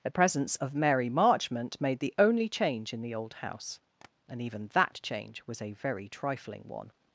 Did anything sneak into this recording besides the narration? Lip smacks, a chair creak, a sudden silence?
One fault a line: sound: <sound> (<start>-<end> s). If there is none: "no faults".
sound: tap (4.0-4.1 s)